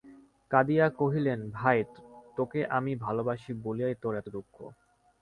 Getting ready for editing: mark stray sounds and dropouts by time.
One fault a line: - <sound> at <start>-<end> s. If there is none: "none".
none